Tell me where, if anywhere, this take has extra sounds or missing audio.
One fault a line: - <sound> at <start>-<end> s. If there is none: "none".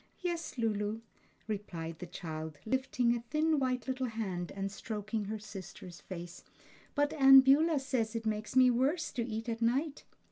none